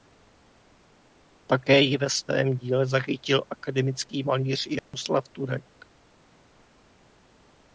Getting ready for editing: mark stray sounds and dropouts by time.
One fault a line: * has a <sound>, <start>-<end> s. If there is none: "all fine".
* has a dropout, 4.8-4.9 s